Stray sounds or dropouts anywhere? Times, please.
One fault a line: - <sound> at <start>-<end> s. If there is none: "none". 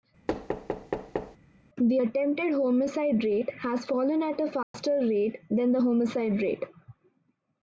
- thud at 0.3-1.4 s
- dropout at 4.6-4.7 s